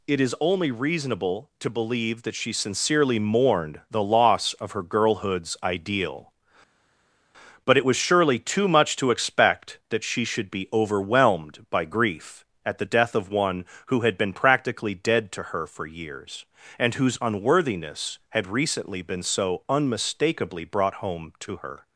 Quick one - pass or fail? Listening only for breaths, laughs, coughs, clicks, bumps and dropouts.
pass